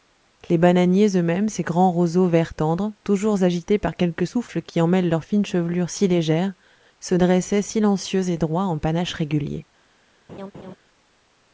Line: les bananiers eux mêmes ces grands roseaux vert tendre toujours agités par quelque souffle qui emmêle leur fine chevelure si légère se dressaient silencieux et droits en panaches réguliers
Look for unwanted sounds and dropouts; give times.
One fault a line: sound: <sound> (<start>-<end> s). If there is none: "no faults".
sound: laugh (10.3-10.8 s)